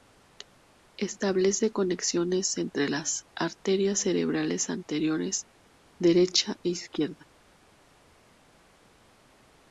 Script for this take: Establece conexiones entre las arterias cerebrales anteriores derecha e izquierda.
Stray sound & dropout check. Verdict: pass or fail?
pass